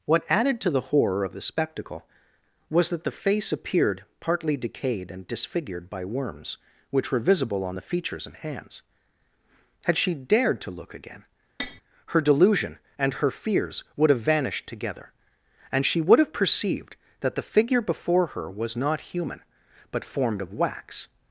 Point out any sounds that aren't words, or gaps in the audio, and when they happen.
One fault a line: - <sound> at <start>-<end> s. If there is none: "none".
- tap at 11.6-11.8 s